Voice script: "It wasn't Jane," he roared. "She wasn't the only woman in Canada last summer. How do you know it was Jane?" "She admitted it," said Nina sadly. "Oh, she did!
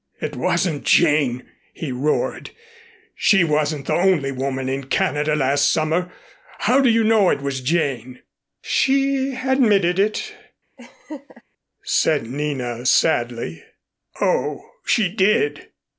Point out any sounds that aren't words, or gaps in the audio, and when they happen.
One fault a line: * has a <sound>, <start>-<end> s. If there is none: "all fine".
* has a laugh, 10.8-11.4 s